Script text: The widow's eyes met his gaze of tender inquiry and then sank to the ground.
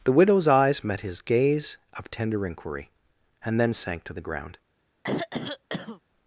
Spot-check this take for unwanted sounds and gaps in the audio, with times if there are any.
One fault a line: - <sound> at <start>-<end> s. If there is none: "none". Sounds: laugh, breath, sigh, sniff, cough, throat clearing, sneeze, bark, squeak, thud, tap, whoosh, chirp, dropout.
- throat clearing at 5.0-6.0 s